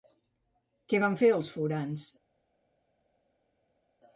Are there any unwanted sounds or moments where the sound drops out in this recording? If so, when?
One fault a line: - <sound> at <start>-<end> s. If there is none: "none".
none